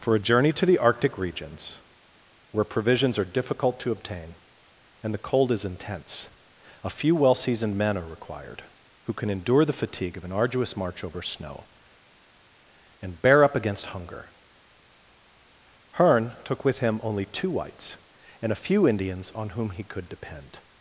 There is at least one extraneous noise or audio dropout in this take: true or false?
false